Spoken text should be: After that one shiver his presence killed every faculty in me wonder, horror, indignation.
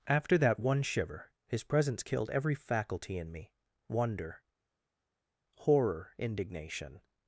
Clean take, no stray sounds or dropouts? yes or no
yes